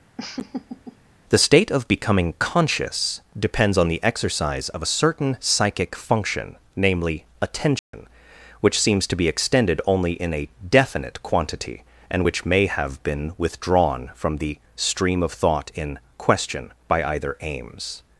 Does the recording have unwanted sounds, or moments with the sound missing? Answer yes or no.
yes